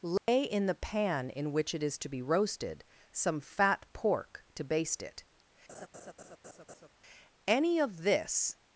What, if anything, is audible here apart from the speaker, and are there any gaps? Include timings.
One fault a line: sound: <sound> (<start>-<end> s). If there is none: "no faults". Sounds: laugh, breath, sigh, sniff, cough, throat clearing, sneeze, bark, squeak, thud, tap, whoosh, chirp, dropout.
sound: dropout (0.2-0.3 s)
sound: laugh (5.7-6.9 s)